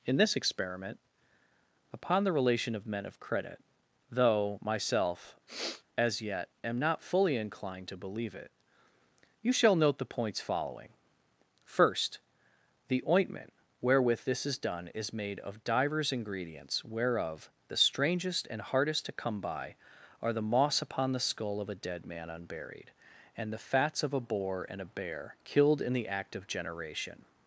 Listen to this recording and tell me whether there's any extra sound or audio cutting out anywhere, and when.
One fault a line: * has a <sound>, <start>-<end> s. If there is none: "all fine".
* has a sniff, 5.5-5.8 s